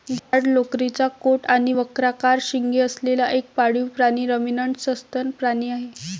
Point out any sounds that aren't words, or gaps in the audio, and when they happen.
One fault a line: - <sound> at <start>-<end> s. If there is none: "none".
- dropout at 0.2-0.3 s